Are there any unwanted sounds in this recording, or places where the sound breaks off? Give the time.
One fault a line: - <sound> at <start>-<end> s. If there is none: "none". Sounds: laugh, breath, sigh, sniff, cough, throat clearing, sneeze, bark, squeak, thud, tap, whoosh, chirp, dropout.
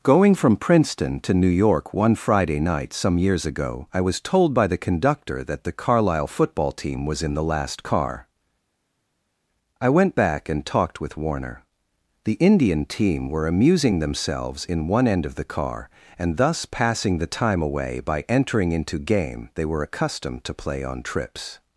none